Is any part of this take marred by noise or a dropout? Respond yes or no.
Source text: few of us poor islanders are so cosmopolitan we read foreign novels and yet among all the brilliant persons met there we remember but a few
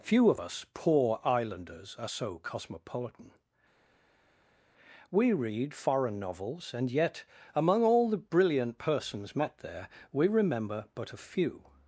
no